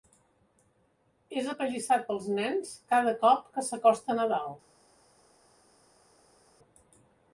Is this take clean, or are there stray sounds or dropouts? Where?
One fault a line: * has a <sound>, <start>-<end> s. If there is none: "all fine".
all fine